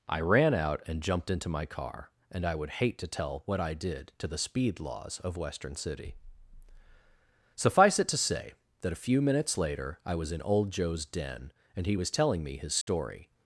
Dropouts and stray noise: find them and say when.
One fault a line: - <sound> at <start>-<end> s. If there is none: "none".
- dropout at 12.8-12.9 s